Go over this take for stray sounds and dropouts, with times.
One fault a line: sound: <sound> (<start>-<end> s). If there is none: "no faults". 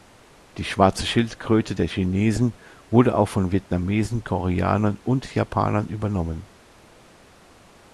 no faults